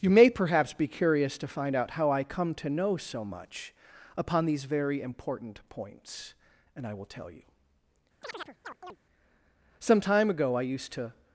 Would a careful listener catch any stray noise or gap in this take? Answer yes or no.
yes